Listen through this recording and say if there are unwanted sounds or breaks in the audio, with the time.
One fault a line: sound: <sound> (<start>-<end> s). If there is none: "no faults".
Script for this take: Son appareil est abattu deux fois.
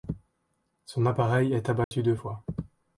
sound: dropout (1.8-1.9 s)